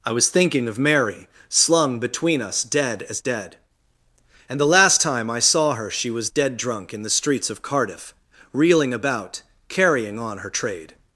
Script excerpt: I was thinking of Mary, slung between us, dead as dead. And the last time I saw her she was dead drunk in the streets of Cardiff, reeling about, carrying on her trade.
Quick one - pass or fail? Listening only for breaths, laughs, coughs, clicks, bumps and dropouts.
pass